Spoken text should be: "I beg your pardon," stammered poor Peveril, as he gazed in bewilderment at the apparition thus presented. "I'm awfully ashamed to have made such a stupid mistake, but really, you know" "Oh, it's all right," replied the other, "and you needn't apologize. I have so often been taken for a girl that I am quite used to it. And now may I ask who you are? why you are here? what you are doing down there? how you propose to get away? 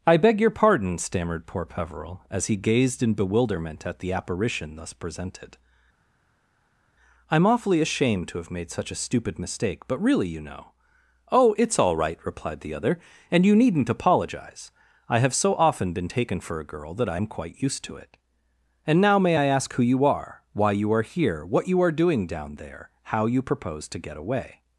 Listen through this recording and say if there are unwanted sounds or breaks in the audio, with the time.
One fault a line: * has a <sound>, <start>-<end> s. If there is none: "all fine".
all fine